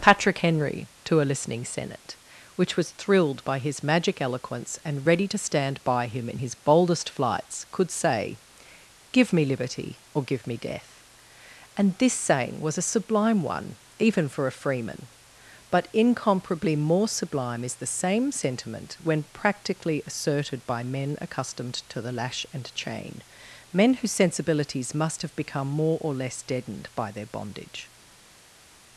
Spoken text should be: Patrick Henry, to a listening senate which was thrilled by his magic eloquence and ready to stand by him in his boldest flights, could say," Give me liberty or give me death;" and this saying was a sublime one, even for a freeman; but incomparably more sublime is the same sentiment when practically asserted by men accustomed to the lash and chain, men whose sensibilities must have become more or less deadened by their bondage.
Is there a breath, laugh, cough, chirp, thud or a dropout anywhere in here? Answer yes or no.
no